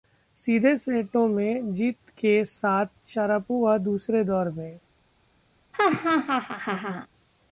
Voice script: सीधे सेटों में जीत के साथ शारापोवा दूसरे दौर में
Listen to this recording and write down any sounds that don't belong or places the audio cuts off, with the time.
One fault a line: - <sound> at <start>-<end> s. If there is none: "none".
- laugh at 5.7-7.1 s